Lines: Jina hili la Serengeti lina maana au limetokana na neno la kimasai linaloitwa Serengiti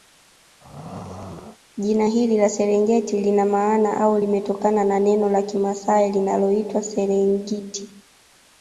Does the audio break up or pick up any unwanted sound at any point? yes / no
yes